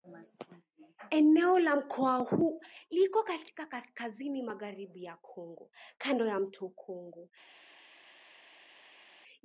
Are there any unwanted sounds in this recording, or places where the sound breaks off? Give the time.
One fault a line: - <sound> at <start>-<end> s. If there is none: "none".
none